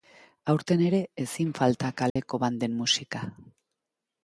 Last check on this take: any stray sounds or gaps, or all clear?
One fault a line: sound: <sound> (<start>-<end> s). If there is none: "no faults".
sound: dropout (2.1-2.2 s)